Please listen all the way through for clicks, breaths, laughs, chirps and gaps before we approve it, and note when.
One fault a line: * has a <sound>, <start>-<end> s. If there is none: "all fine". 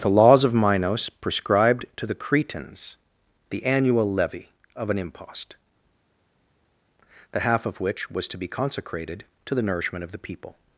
all fine